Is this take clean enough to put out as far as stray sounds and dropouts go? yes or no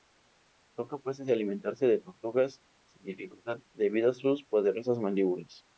yes